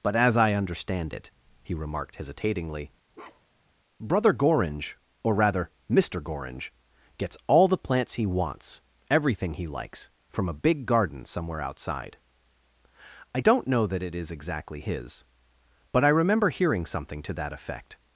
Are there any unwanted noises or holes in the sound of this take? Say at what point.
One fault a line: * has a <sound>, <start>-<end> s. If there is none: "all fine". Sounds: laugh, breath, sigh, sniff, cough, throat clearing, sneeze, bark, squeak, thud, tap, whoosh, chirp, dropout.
* has a bark, 3.1-3.7 s